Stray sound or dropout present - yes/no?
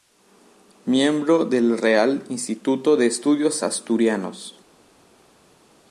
no